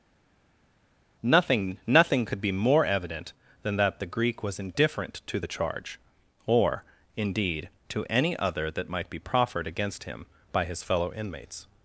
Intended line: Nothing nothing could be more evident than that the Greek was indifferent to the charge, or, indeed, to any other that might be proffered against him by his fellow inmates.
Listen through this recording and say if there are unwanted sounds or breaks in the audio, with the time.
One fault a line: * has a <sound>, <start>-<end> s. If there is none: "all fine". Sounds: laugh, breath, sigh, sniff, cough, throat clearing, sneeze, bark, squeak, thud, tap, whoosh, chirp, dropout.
all fine